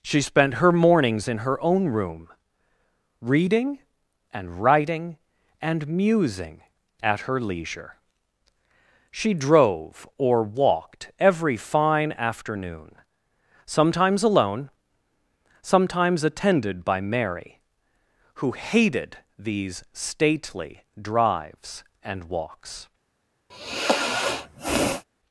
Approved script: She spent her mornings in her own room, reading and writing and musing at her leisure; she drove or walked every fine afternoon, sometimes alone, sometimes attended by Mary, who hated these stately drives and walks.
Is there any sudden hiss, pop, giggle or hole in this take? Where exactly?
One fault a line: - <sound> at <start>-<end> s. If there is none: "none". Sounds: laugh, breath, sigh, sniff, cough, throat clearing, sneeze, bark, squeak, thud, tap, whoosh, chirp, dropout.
- sigh at 23.5-25.0 s